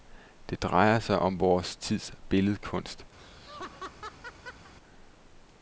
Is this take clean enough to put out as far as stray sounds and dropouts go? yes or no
no